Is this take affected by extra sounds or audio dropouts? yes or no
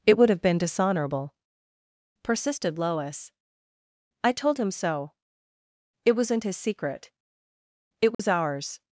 yes